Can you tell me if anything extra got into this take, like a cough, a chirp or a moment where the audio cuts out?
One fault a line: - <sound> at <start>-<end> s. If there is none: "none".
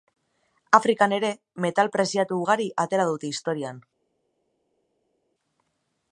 none